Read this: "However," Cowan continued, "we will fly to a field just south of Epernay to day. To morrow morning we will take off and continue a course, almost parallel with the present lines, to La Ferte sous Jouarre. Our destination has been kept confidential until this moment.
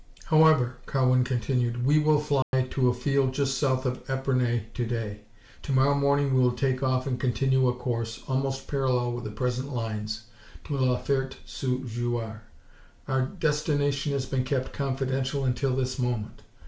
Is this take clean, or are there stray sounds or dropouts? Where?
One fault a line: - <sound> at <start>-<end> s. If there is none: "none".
- dropout at 2.4-2.5 s